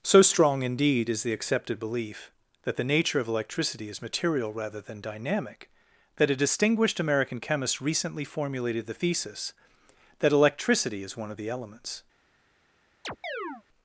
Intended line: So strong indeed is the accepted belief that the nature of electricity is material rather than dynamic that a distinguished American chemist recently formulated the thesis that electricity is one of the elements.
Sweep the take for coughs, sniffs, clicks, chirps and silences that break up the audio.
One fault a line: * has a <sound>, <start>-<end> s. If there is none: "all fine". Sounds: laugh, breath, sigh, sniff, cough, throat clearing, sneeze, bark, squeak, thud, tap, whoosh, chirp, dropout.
* has a chirp, 13.0-13.6 s